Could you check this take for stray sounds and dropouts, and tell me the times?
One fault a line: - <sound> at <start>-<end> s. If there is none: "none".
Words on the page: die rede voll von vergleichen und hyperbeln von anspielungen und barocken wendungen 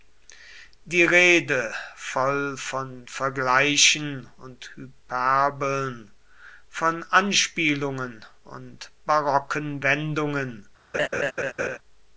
- laugh at 10.9-11.8 s